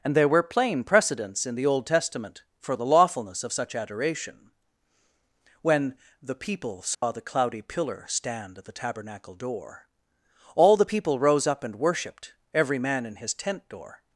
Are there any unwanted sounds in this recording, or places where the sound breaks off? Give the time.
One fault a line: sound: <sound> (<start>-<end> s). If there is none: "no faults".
sound: dropout (6.9-7.0 s)